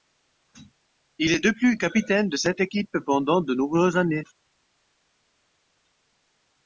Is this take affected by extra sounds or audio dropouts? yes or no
no